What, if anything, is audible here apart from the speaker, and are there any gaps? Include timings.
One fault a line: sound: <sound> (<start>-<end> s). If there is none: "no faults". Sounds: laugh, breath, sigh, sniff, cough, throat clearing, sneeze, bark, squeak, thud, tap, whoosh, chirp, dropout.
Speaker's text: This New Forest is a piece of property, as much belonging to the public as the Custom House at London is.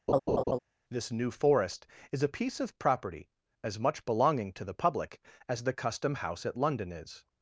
sound: laugh (0.1-0.6 s)